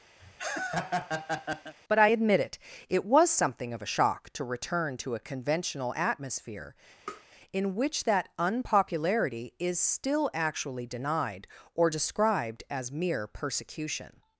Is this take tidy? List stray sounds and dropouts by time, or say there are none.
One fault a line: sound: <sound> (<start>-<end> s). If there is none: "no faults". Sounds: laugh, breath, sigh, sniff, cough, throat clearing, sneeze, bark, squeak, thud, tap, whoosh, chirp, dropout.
sound: laugh (0.2-1.7 s)
sound: tap (7.1-7.2 s)